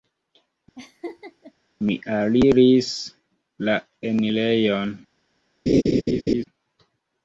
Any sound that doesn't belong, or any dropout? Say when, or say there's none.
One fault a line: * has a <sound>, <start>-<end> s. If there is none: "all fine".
* has a laugh, 0.8-1.5 s
* has a laugh, 5.7-6.4 s